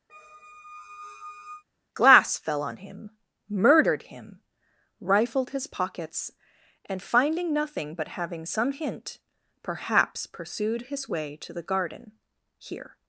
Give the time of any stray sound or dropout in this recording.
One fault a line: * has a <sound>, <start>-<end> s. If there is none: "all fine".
* has a squeak, 0.1-1.6 s